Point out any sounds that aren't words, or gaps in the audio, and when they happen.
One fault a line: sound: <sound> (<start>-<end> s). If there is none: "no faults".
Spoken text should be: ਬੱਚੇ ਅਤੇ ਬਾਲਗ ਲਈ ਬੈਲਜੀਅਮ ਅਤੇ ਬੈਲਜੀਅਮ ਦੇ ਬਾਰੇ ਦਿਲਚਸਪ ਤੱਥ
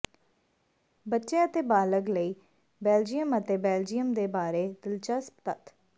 no faults